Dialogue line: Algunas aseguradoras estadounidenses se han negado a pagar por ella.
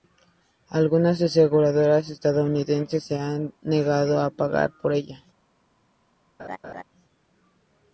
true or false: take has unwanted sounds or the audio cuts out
true